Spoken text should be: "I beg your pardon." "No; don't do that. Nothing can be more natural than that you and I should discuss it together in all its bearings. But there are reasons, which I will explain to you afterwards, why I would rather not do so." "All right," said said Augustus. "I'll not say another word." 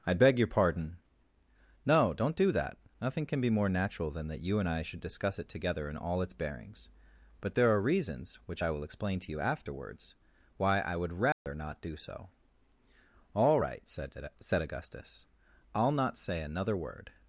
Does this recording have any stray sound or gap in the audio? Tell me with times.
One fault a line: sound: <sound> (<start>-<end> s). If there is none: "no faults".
sound: dropout (11.3-11.5 s)